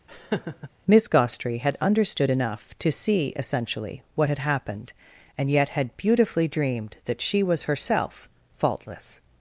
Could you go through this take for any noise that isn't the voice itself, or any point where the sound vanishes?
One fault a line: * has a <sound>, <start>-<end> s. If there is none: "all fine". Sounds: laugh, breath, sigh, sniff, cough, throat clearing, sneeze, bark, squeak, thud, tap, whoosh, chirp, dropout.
* has a laugh, 0.1-0.7 s